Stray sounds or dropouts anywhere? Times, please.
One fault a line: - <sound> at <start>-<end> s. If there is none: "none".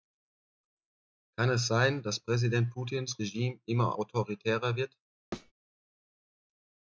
- thud at 5.3-5.5 s